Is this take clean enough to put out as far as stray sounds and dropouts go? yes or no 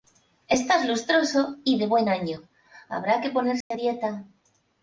no